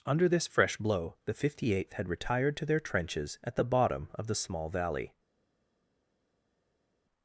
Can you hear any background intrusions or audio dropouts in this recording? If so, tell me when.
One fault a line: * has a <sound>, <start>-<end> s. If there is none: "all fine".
all fine